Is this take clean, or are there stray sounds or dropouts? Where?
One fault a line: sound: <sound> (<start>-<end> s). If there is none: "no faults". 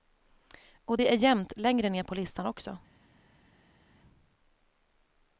no faults